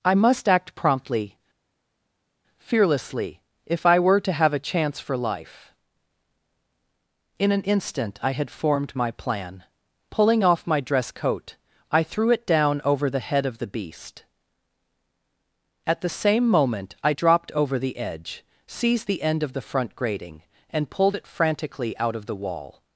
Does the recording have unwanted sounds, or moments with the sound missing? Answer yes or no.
no